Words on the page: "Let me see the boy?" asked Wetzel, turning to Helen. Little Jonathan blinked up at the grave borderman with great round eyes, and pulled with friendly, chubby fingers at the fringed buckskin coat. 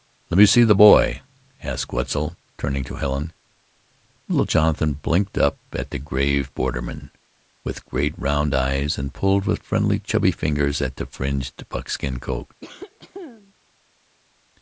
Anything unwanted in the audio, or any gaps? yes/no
yes